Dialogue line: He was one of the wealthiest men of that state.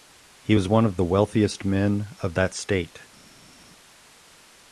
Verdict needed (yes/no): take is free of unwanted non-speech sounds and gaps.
yes